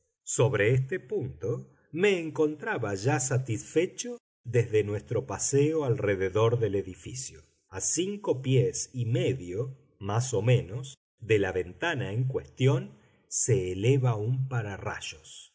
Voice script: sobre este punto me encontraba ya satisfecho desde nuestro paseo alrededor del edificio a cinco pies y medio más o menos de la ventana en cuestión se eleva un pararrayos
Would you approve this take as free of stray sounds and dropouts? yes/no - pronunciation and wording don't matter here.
yes